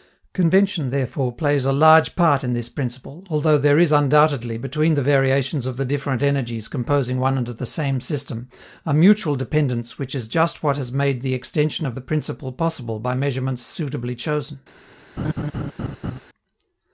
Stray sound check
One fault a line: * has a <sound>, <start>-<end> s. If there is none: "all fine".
* has a laugh, 15.2-16.2 s